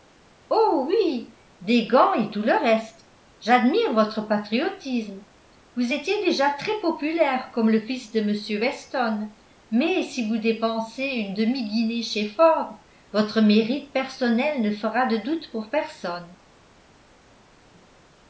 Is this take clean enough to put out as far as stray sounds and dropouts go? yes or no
yes